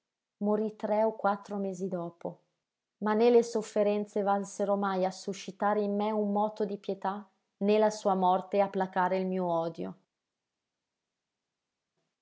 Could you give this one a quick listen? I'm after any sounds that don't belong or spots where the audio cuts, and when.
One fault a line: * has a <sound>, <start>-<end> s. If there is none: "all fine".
all fine